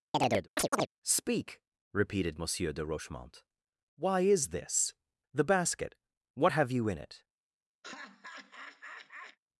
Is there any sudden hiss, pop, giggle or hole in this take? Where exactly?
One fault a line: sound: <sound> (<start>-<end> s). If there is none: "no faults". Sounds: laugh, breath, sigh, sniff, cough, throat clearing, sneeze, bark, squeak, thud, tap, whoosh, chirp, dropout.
sound: chirp (0.1-0.9 s)
sound: laugh (7.8-9.4 s)